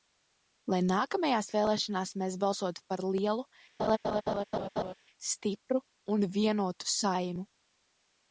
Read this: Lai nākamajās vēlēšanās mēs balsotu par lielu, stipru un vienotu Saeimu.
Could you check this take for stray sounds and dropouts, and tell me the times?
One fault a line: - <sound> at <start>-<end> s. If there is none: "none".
- laugh at 3.8-4.9 s